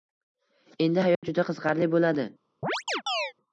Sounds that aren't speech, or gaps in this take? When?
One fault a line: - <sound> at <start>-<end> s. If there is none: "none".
- dropout at 1.1-1.2 s
- chirp at 2.6-3.3 s